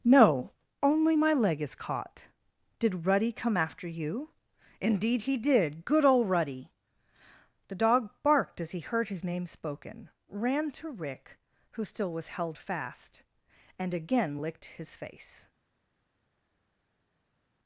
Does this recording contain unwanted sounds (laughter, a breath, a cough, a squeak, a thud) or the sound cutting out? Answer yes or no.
no